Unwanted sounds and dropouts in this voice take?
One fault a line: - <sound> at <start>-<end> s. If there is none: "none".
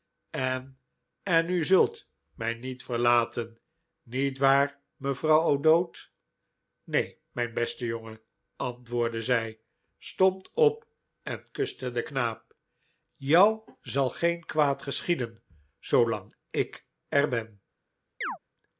- chirp at 18.2-18.4 s